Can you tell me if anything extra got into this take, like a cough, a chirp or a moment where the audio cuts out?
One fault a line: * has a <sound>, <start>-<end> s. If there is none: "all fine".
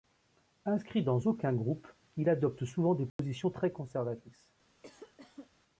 * has a dropout, 3.1-3.2 s
* has a cough, 4.8-5.5 s